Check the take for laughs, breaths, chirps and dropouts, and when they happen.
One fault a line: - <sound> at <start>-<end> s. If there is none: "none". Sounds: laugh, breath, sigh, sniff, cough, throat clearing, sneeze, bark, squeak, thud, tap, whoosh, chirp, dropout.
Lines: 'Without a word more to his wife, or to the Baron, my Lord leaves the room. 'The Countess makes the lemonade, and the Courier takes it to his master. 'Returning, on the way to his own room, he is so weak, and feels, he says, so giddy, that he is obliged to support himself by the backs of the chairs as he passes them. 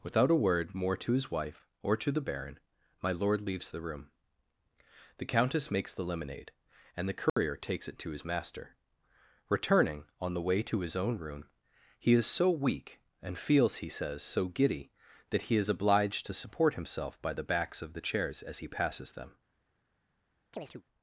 - dropout at 7.3-7.4 s
- chirp at 20.5-20.8 s